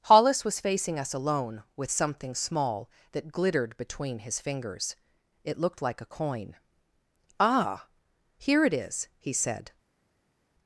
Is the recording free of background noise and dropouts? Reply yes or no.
yes